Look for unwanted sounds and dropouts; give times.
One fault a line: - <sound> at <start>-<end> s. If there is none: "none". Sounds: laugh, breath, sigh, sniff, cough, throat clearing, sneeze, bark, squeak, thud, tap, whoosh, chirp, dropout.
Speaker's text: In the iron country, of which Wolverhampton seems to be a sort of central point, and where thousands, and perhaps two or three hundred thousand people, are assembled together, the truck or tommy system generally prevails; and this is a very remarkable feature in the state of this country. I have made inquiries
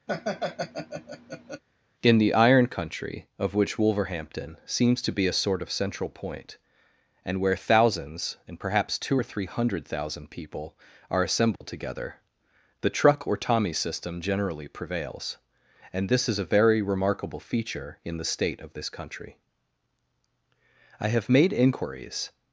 - laugh at 0.1-1.6 s
- dropout at 11.6-11.6 s